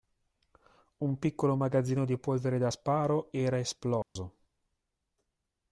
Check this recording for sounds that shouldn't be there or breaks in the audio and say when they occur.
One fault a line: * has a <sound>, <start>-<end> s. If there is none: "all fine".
* has a dropout, 4.0-4.2 s